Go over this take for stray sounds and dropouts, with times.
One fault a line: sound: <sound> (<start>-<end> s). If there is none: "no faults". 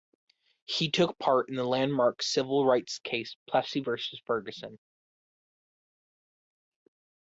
no faults